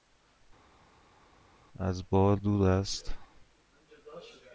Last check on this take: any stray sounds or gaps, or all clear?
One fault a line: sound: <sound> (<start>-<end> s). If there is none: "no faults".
no faults